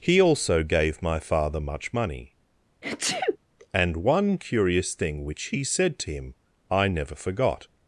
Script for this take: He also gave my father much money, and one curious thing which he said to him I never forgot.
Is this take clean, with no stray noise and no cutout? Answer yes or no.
no